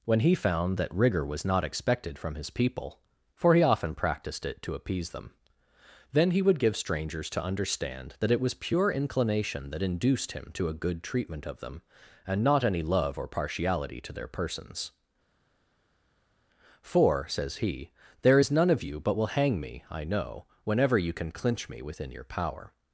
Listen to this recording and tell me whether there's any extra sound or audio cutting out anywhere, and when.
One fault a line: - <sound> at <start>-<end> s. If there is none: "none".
none